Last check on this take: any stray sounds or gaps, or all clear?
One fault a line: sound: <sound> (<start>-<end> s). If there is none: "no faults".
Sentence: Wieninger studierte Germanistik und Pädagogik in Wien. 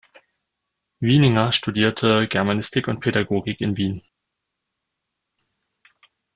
no faults